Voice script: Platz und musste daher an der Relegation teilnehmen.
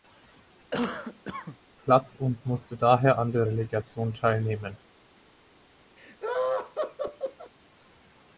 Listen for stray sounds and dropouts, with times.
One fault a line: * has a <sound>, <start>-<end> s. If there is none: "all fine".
* has a cough, 0.7-1.6 s
* has a laugh, 6.0-7.5 s